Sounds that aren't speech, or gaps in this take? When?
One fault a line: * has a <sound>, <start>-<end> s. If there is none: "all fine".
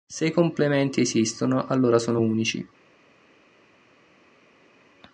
all fine